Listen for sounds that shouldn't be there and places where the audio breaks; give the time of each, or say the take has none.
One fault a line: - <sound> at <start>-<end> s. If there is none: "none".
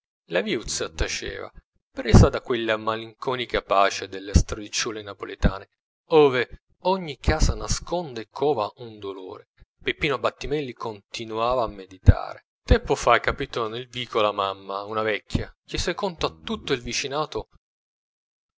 none